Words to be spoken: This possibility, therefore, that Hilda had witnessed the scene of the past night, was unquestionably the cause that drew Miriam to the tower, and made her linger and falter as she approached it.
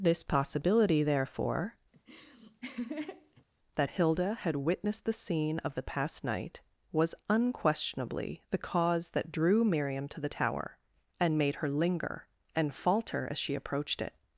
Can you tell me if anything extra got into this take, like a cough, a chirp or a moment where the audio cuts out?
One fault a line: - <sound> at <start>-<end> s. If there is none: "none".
- laugh at 1.9-3.4 s